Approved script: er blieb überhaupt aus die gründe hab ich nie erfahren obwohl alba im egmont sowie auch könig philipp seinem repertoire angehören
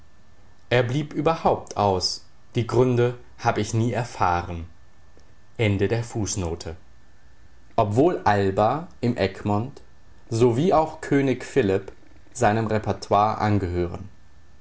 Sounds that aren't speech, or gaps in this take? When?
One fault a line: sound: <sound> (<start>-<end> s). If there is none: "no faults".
no faults